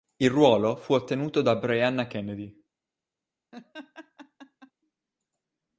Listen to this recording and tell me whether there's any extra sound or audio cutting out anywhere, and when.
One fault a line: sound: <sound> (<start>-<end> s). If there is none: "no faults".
sound: laugh (3.5-4.7 s)